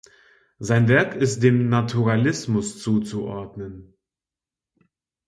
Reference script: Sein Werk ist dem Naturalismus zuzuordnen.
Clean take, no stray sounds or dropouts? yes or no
yes